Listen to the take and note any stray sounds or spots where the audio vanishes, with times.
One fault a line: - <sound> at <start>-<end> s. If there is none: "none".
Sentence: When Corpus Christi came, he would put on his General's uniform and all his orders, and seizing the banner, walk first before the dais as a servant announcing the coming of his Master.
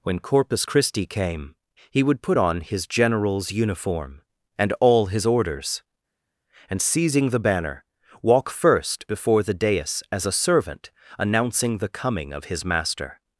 none